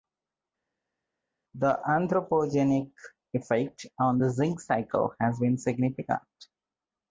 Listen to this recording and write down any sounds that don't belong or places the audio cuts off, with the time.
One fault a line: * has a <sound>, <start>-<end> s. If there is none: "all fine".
all fine